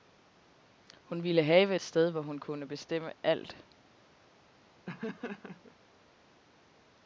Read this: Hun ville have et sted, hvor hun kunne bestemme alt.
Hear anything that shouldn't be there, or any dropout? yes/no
yes